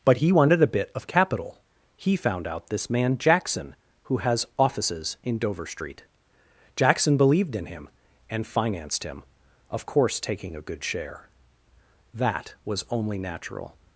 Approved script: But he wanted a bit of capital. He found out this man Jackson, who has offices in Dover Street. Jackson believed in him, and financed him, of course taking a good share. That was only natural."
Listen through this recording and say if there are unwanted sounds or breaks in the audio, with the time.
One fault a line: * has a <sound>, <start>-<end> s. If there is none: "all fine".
all fine